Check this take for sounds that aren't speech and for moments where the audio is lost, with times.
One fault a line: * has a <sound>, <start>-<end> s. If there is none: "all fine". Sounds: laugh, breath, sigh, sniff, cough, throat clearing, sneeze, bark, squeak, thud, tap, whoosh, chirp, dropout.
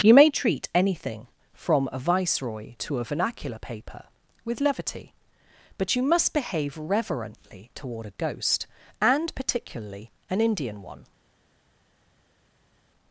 all fine